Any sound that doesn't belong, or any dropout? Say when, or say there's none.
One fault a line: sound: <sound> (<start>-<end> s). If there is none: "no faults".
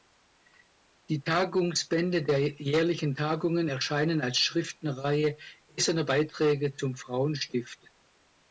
no faults